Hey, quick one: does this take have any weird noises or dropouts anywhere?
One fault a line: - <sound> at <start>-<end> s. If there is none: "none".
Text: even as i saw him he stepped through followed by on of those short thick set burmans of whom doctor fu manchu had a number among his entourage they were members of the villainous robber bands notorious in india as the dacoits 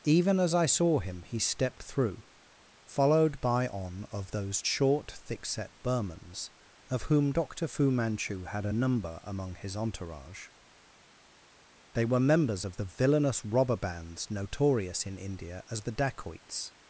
none